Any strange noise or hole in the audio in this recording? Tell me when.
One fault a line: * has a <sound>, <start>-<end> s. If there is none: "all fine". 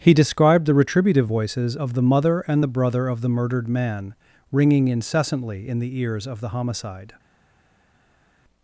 all fine